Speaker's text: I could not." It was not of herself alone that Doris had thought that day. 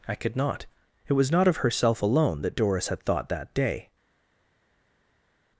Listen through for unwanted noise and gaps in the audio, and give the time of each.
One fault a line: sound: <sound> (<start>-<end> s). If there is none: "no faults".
no faults